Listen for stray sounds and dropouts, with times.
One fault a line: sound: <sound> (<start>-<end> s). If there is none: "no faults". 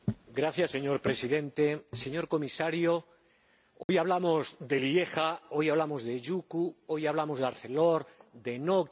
sound: dropout (3.8-3.9 s)